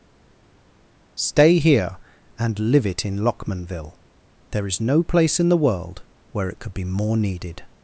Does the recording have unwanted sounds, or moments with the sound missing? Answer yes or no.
no